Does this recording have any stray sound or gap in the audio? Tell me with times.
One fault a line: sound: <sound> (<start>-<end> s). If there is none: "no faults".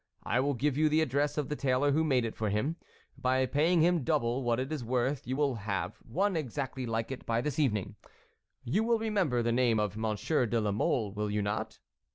no faults